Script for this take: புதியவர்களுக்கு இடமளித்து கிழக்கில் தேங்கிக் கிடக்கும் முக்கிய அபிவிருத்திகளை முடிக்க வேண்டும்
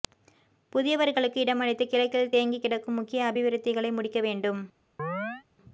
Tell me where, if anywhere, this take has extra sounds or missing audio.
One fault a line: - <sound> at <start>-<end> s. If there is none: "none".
- chirp at 5.0-5.4 s